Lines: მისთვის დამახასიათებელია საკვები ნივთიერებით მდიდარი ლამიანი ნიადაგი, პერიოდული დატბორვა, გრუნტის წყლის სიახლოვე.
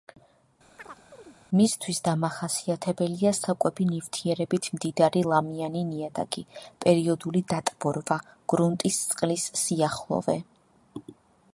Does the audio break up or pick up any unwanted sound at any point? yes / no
yes